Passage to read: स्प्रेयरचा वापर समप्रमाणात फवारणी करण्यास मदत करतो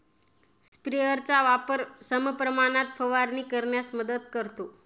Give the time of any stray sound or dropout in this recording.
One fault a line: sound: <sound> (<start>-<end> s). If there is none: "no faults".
sound: dropout (0.7-0.7 s)